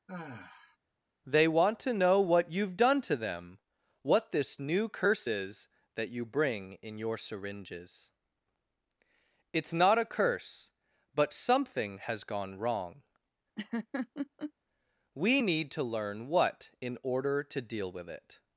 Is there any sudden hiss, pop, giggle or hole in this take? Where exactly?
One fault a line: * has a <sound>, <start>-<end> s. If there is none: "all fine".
* has a sigh, 0.1-0.8 s
* has a laugh, 13.6-14.5 s